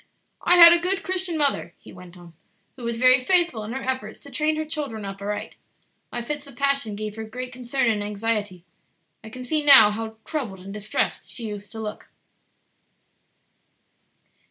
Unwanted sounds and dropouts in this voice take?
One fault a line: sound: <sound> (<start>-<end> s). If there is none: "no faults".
no faults